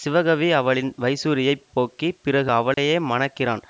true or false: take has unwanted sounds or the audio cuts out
true